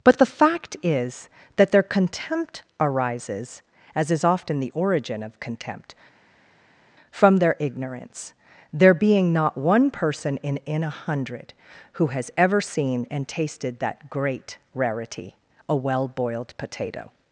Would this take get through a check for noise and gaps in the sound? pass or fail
pass